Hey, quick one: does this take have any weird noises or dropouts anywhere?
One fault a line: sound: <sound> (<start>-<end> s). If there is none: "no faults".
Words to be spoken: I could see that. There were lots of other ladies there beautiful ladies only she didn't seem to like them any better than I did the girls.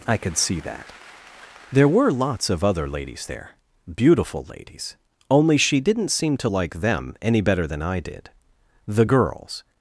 no faults